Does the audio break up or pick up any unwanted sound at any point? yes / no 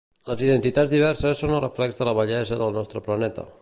no